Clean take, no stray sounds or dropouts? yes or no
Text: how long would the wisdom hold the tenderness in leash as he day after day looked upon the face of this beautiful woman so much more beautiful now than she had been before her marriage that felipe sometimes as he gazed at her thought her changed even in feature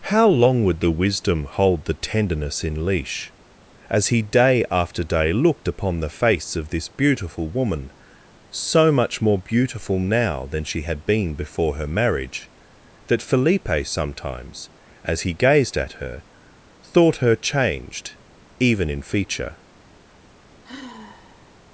no